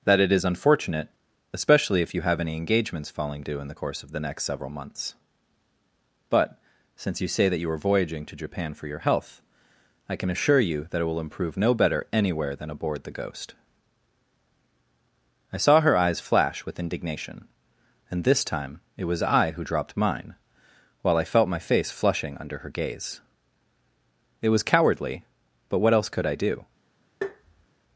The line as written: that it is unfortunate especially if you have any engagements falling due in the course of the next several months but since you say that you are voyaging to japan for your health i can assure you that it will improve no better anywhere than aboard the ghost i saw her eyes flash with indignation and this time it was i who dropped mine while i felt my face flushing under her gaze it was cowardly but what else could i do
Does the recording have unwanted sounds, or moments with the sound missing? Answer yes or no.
yes